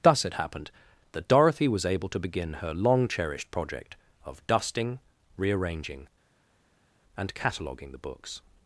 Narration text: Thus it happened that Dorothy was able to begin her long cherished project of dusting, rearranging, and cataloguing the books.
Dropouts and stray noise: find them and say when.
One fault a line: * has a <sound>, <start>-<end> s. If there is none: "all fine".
all fine